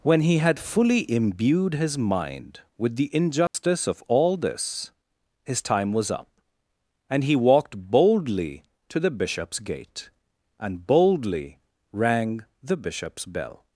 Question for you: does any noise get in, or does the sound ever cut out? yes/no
yes